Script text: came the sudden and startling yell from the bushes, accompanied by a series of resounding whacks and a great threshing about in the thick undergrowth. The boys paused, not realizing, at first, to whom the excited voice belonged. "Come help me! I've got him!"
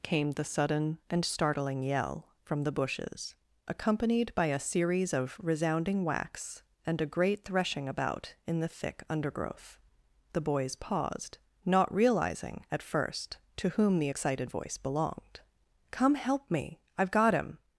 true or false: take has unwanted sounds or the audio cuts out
false